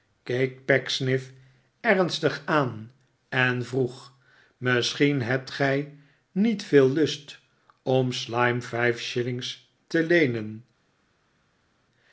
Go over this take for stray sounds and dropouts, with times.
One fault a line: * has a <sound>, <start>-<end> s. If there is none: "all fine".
all fine